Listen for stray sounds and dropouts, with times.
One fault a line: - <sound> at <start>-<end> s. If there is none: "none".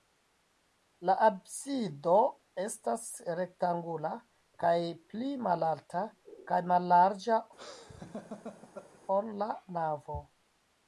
- laugh at 7.6-9.0 s